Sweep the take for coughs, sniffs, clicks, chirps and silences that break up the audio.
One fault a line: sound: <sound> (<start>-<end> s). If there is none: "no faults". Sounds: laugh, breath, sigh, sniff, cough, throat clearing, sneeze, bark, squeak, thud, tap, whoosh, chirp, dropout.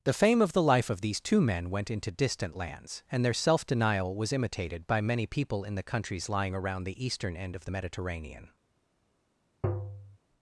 sound: tap (9.6-10.2 s)